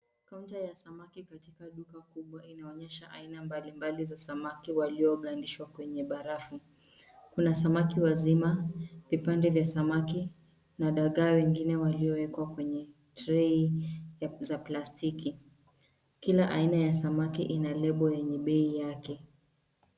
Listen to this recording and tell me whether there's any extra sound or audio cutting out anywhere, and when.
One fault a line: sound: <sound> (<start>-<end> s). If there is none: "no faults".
no faults